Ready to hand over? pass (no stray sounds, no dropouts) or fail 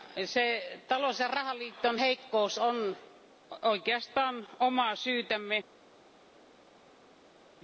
pass